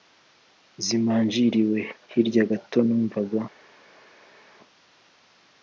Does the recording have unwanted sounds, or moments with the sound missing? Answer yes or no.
no